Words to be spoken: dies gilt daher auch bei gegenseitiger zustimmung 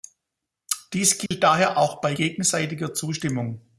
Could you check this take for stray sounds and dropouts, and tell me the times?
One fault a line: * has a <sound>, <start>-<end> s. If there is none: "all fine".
* has a dropout, 1.3-1.3 s